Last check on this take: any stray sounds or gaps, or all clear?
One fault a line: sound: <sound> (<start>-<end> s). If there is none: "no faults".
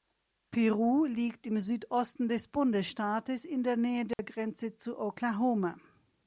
sound: dropout (4.1-4.2 s)